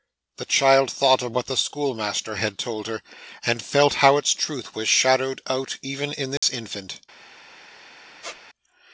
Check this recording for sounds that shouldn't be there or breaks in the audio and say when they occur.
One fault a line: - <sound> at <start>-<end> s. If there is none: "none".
- dropout at 6.4-6.4 s
- squeak at 8.2-8.4 s